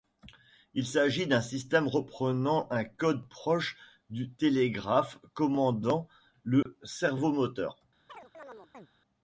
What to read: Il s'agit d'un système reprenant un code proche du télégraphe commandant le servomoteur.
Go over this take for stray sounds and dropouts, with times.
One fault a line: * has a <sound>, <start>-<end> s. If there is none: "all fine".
* has a dropout, 6.6-6.7 s
* has a chirp, 8.1-8.9 s